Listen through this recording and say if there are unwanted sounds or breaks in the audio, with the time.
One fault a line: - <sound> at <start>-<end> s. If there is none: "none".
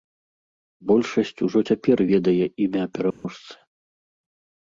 - dropout at 3.1-3.2 s